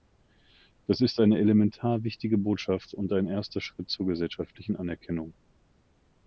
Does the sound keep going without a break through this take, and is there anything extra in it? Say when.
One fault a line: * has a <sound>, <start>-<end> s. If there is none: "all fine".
all fine